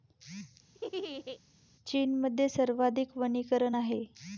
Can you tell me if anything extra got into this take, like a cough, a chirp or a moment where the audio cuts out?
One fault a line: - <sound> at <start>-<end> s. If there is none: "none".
- laugh at 0.7-1.4 s